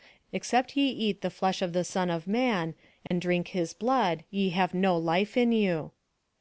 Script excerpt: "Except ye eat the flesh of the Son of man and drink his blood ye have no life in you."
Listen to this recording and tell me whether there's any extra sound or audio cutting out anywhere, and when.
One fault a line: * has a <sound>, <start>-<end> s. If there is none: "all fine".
* has a dropout, 3.1-3.1 s